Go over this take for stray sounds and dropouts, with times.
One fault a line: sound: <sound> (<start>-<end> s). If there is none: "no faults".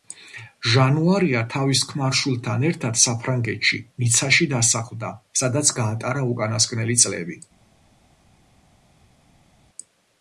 no faults